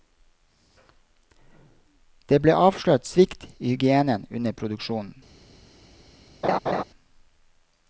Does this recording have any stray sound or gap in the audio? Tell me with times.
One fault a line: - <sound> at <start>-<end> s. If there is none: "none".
- laugh at 6.4-6.8 s